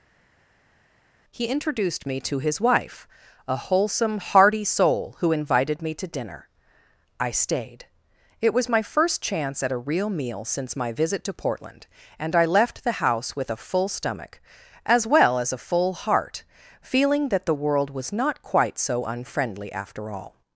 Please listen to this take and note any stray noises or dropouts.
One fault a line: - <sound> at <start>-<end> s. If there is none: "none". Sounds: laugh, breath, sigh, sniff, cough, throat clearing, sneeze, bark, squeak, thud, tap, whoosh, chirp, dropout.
none